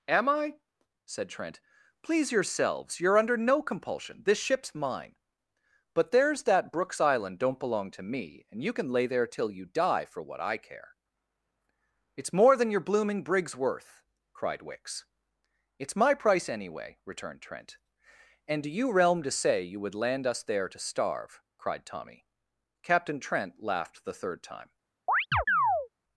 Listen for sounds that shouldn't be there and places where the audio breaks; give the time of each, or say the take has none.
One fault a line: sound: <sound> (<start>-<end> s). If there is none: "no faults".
sound: chirp (25.1-25.9 s)